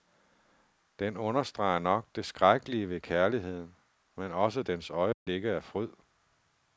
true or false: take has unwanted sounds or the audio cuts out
true